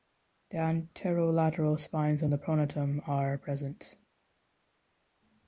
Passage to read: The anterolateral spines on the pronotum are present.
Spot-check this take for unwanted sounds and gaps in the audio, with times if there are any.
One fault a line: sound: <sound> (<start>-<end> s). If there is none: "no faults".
no faults